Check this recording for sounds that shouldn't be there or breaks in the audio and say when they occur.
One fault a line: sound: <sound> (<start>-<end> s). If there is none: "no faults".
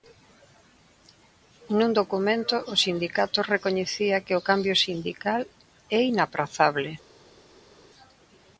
no faults